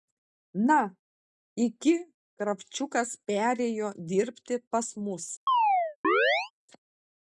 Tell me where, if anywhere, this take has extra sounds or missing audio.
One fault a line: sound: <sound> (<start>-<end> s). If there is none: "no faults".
sound: chirp (5.5-6.5 s)